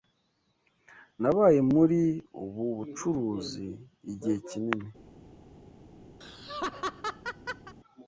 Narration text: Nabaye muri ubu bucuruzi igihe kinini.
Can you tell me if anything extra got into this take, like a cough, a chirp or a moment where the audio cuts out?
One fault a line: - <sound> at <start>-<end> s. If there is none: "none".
- laugh at 6.2-7.7 s